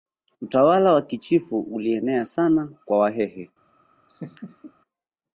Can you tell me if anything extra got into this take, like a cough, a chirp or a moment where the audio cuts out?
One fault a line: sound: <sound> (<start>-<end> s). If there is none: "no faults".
sound: laugh (4.1-4.7 s)